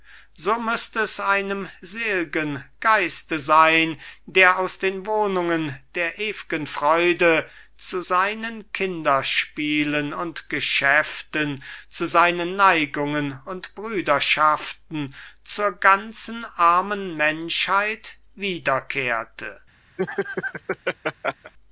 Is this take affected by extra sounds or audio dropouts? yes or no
yes